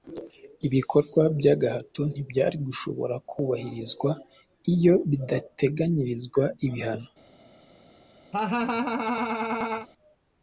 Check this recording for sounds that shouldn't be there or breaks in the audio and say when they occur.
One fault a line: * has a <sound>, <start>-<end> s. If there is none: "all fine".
* has a laugh, 8.3-9.9 s